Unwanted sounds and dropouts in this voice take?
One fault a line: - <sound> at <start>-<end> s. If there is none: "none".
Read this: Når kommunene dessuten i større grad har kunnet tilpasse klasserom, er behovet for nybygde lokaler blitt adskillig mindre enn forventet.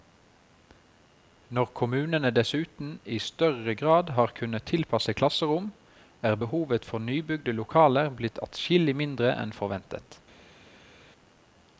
none